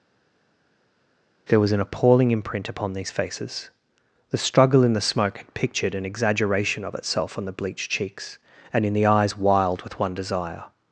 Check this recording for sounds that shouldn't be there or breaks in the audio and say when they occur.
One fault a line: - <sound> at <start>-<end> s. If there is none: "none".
none